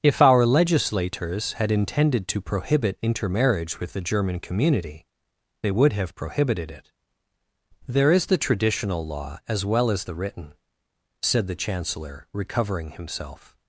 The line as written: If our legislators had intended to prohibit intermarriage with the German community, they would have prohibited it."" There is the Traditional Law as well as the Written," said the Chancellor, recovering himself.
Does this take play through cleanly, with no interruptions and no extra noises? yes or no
yes